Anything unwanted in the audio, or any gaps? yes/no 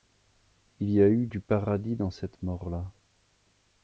no